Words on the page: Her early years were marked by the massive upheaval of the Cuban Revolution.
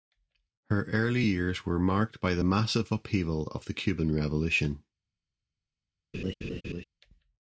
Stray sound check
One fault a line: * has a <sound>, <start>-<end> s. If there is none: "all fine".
* has a laugh, 6.1-6.8 s